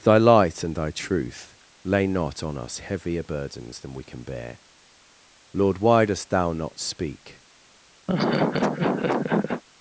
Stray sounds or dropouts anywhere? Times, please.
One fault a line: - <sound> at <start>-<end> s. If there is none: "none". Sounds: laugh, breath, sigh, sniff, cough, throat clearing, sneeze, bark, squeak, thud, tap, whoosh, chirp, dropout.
- laugh at 8.1-9.6 s